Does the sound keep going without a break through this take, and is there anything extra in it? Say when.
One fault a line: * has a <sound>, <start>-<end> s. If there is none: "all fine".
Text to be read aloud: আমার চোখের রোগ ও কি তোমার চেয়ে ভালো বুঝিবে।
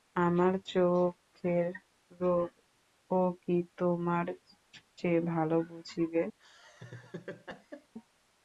* has a laugh, 6.4-7.9 s